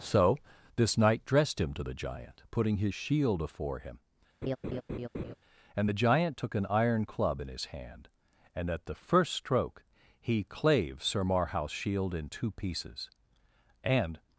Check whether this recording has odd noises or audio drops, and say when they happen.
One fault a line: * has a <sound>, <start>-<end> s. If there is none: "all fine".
* has a laugh, 4.4-5.3 s